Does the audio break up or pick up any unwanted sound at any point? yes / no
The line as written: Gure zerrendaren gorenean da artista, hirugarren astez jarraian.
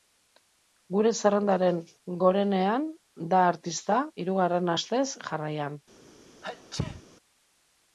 yes